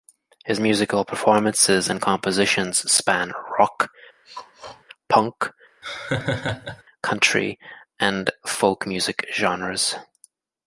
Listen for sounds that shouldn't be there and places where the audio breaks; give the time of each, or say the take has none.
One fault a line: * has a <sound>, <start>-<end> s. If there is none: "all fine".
* has a throat clearing, 4.2-4.8 s
* has a laugh, 5.8-6.8 s